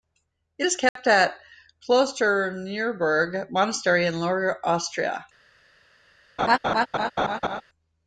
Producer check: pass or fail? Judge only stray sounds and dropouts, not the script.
fail